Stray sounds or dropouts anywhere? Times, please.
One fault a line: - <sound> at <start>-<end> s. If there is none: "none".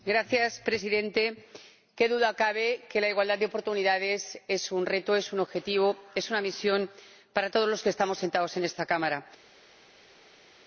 none